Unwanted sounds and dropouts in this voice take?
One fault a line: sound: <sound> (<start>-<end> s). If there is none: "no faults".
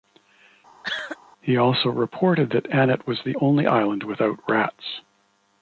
sound: cough (0.8-1.2 s)